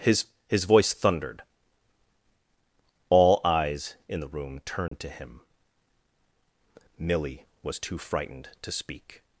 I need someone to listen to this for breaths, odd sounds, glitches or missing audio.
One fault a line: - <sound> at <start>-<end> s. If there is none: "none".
- dropout at 4.9-4.9 s